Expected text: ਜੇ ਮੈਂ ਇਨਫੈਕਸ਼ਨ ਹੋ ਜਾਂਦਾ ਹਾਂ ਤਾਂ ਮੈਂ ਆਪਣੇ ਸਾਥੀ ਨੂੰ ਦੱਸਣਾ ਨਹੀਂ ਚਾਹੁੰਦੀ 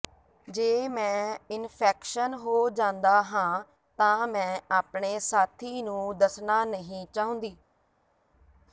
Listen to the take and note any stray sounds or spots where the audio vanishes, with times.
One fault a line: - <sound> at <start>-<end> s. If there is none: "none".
none